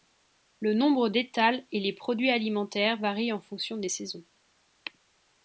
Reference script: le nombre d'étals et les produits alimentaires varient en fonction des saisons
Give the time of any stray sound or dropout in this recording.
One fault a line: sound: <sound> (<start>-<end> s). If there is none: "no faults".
no faults